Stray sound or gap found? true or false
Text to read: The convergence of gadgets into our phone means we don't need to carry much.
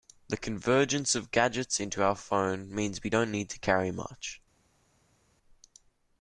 false